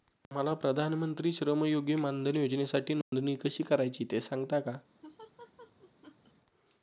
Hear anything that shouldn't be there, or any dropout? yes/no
yes